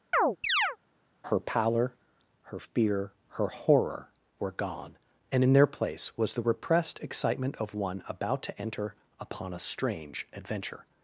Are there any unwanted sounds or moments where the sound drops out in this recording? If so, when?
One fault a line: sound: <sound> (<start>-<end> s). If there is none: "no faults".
sound: chirp (0.1-0.8 s)